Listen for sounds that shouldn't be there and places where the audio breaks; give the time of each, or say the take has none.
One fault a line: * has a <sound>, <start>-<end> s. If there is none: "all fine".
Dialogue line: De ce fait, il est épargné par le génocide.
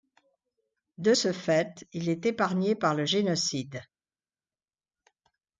all fine